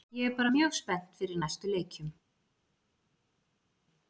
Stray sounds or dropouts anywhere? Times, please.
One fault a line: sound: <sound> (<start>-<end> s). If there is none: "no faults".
no faults